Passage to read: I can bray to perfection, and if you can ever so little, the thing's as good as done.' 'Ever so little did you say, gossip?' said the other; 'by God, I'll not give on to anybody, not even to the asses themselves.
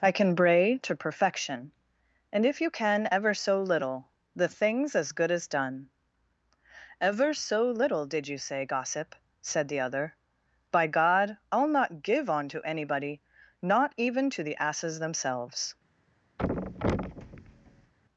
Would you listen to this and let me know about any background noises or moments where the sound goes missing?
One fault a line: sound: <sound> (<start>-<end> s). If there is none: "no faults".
sound: thud (16.4-17.9 s)